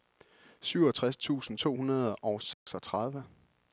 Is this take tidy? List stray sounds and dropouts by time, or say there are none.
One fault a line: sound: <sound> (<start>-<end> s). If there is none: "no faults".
sound: dropout (2.5-2.7 s)